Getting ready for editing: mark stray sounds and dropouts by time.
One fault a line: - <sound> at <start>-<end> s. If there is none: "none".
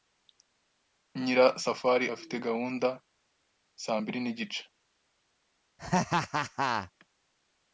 - laugh at 5.8-6.9 s